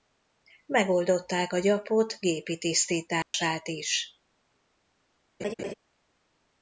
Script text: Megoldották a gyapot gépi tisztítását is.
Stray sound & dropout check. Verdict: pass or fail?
fail